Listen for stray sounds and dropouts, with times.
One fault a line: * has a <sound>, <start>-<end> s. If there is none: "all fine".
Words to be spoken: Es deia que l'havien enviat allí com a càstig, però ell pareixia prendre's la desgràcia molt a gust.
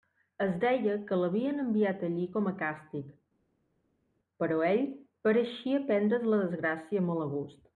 all fine